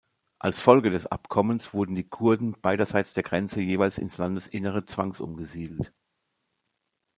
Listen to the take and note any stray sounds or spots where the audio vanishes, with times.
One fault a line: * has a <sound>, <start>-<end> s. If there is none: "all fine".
all fine